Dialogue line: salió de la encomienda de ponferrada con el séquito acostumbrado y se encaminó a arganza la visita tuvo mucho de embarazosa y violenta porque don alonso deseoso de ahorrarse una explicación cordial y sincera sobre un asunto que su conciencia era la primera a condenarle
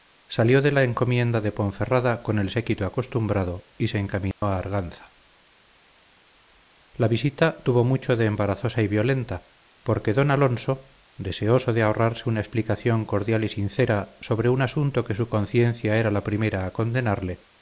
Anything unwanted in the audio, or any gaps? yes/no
yes